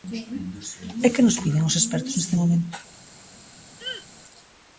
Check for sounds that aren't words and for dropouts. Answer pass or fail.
fail